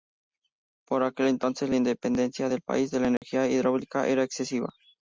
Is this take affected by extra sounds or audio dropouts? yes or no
yes